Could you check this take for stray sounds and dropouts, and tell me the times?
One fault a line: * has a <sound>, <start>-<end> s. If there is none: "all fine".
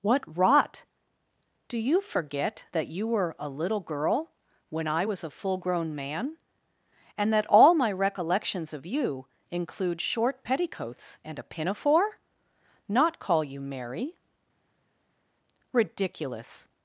all fine